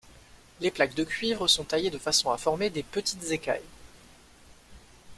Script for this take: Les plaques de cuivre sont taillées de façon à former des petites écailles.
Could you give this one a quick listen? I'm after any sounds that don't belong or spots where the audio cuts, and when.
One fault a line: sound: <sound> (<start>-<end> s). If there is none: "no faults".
no faults